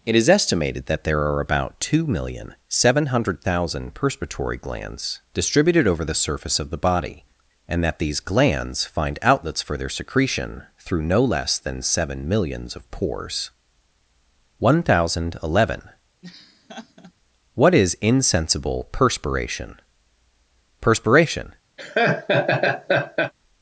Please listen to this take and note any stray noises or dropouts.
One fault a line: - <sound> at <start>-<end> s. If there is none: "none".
- laugh at 16.2-17.1 s
- laugh at 21.8-23.3 s